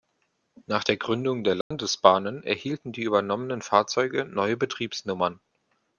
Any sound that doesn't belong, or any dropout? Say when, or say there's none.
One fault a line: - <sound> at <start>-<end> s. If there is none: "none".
- dropout at 1.6-1.7 s